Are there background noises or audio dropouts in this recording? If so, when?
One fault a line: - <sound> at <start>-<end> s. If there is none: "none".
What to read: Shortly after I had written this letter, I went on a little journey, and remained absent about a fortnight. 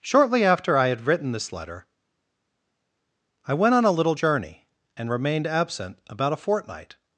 none